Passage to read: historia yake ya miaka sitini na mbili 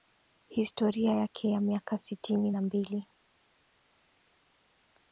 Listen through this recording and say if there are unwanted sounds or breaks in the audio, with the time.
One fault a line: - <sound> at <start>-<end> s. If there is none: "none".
none